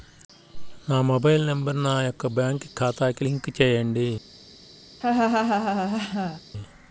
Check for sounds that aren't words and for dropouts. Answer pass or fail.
fail